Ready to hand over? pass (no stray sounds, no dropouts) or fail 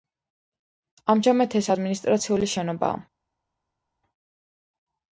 pass